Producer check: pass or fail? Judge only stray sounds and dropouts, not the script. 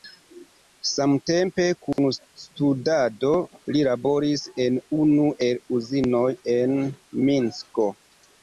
fail